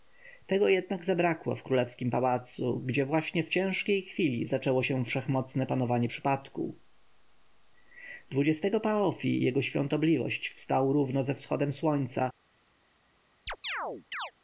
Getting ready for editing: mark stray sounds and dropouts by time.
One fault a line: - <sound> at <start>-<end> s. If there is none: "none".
- chirp at 13.5-14.3 s